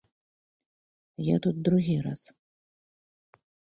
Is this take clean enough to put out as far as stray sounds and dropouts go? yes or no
yes